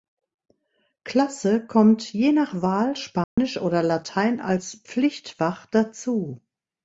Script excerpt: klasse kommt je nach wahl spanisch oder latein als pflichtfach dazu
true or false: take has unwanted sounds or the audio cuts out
true